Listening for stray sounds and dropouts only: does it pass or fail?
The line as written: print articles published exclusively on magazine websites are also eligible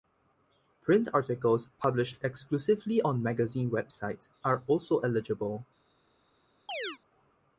fail